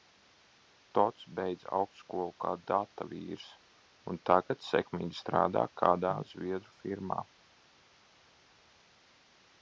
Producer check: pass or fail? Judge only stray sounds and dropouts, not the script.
pass